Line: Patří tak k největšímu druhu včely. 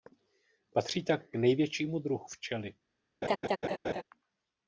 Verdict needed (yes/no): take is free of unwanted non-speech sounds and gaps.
no